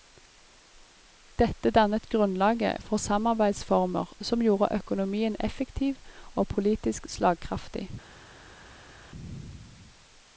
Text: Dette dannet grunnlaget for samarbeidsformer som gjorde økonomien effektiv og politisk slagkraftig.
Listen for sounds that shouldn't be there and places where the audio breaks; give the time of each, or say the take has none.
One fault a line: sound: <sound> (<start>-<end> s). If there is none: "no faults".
no faults